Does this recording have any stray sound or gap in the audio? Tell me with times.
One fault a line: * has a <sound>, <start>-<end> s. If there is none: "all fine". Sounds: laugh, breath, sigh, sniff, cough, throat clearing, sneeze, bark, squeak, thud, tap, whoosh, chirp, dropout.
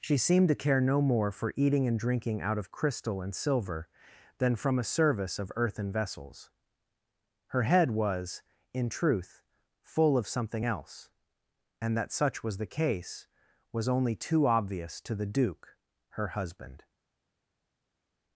all fine